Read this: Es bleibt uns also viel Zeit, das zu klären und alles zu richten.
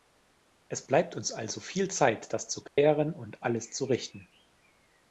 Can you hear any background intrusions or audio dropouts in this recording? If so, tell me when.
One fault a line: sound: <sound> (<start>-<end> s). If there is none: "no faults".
sound: dropout (2.7-2.8 s)